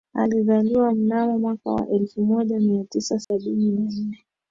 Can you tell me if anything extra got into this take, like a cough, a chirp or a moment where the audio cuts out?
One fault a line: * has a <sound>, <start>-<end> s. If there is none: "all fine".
* has a dropout, 3.2-3.3 s